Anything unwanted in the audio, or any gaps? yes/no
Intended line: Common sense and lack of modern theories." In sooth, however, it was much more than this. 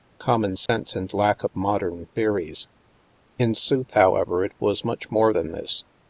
yes